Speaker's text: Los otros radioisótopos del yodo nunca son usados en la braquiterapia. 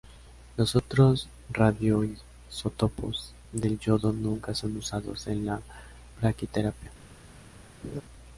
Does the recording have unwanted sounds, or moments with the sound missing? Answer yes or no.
yes